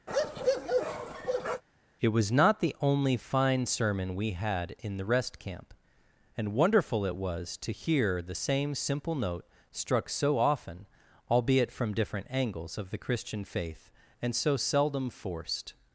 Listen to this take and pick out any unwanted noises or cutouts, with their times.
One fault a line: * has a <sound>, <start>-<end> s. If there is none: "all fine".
* has a bark, 0.1-1.6 s